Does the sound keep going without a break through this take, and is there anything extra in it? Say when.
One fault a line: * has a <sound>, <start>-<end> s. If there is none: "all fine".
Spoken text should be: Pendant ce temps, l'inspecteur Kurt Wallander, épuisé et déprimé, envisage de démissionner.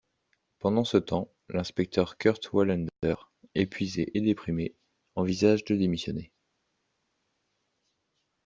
all fine